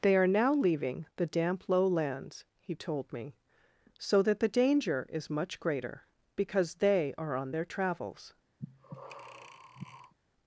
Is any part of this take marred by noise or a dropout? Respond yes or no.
yes